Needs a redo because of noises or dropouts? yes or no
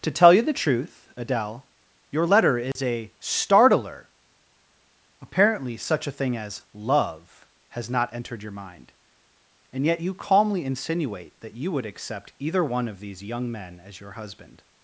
yes